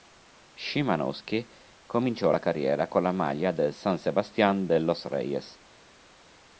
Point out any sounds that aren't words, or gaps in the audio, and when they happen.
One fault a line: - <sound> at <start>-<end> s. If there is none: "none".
none